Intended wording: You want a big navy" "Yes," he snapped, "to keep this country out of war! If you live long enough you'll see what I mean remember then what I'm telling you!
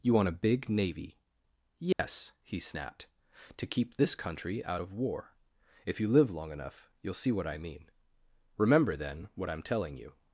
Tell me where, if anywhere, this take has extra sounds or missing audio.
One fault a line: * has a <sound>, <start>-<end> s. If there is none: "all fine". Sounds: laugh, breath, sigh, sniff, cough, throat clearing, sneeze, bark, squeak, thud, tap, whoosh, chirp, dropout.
* has a dropout, 1.9-2.0 s